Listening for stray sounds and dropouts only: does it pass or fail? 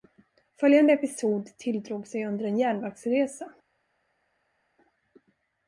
pass